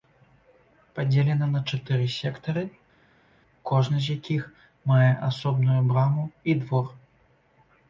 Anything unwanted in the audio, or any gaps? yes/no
no